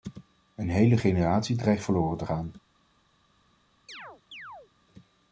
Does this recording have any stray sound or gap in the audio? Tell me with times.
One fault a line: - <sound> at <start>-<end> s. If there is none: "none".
- chirp at 3.9-4.7 s